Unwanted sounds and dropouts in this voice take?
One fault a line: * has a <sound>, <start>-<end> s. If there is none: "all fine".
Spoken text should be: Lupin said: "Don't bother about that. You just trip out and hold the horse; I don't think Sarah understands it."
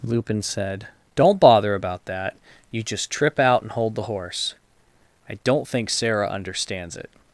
all fine